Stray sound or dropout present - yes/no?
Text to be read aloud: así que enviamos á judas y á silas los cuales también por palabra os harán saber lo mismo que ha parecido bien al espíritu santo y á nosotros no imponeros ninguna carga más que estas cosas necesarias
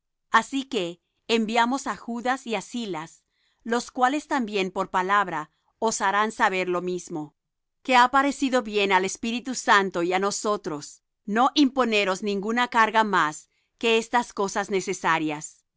no